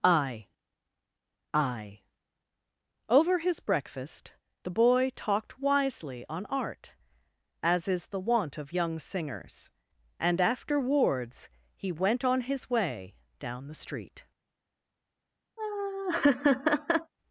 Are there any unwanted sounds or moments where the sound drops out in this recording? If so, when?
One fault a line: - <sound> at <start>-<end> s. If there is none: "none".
- laugh at 15.6-17.1 s